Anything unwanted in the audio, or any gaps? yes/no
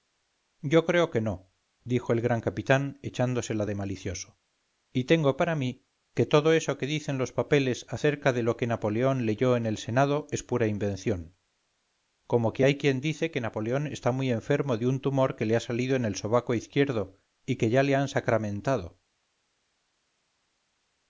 no